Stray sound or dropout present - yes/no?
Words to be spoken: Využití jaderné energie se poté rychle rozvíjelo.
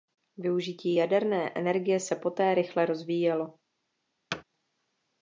yes